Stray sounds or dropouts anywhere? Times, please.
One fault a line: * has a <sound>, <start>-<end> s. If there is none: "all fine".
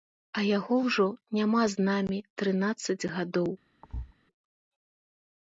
* has a thud, 3.8-4.1 s